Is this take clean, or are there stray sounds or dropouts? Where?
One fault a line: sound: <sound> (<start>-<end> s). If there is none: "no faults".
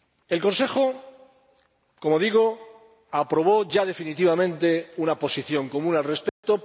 sound: dropout (6.3-6.4 s)